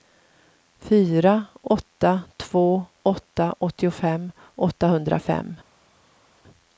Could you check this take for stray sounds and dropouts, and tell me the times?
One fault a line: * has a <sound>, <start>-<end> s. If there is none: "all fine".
all fine